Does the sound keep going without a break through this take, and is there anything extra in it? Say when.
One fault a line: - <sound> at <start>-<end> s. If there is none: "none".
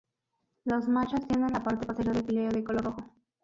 none